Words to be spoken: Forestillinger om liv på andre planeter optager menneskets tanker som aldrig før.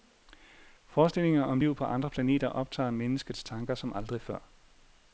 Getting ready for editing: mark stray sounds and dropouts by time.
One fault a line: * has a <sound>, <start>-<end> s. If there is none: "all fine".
all fine